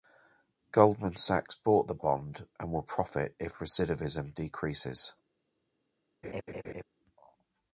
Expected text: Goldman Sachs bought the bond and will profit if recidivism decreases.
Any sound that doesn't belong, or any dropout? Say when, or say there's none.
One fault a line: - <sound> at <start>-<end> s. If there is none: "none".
- laugh at 6.2-6.8 s